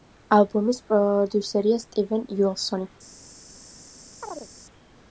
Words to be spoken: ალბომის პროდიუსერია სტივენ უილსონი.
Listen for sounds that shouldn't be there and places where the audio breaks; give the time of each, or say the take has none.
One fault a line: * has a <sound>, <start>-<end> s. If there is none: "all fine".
* has a chirp, 4.2-4.5 s